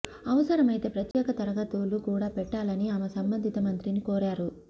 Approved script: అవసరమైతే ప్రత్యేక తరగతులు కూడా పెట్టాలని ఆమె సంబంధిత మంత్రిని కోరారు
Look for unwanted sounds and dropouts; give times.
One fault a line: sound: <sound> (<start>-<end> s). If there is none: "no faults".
sound: dropout (1.1-1.1 s)